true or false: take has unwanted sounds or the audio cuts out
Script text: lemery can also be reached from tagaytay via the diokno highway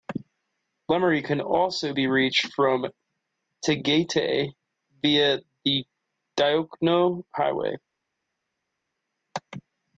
false